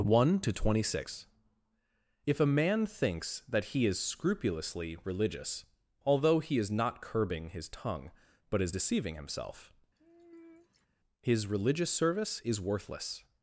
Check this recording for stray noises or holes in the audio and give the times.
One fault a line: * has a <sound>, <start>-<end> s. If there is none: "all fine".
* has a sigh, 10.0-10.9 s